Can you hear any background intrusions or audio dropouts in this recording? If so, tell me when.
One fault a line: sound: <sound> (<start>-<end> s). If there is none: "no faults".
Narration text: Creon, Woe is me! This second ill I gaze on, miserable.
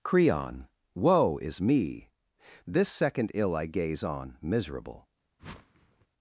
sound: whoosh (5.4-6.1 s)